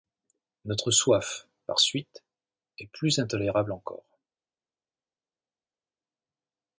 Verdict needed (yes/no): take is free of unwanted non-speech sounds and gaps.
yes